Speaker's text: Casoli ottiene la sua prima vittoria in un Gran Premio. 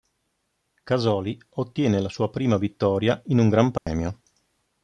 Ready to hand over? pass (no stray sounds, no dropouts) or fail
fail